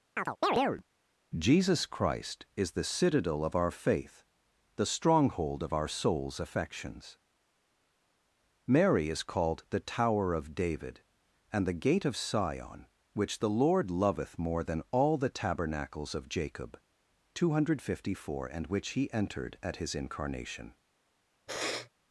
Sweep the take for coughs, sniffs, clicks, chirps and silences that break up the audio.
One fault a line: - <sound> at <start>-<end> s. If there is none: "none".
- chirp at 0.2-0.8 s
- sniff at 21.5-21.9 s